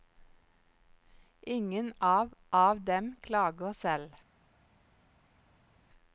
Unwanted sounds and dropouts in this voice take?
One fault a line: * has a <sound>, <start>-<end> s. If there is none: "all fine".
all fine